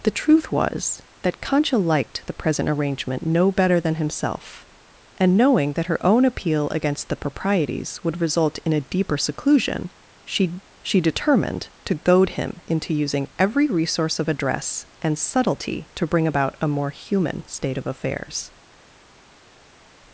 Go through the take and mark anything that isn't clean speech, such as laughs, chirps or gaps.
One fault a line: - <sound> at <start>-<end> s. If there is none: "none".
none